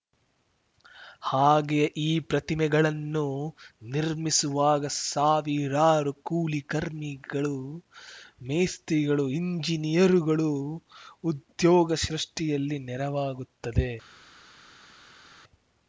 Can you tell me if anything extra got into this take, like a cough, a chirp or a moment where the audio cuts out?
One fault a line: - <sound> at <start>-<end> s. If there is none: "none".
none